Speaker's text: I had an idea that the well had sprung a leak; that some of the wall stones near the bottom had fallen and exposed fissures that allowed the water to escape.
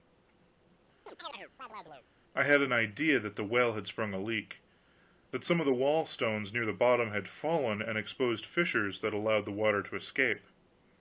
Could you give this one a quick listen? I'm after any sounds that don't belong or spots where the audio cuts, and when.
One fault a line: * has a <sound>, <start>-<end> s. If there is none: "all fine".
* has a chirp, 1.1-2.1 s